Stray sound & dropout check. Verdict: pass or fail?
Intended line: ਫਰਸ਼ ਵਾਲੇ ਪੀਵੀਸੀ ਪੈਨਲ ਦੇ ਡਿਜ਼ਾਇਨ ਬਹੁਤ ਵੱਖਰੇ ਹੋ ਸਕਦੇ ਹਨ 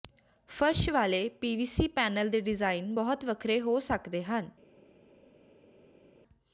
pass